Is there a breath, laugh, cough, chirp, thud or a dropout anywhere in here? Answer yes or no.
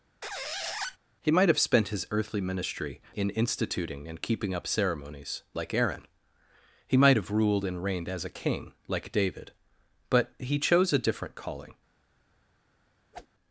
yes